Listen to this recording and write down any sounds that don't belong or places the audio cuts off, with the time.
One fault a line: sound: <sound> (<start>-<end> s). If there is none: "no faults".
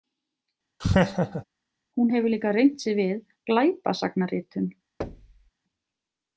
sound: laugh (0.8-1.4 s)
sound: thud (5.0-5.5 s)